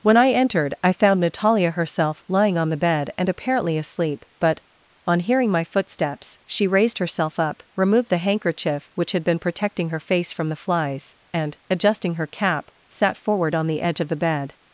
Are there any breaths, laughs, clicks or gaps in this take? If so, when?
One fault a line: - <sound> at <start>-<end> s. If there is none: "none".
none